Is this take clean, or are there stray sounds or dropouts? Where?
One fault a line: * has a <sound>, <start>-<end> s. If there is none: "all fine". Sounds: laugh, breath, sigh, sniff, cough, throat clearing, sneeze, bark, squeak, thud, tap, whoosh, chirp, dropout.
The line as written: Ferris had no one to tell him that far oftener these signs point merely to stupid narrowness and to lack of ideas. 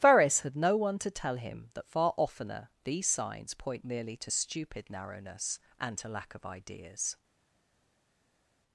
all fine